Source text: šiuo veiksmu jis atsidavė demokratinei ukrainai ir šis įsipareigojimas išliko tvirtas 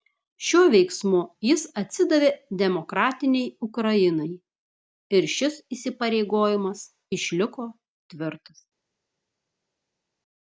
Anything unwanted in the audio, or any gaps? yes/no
no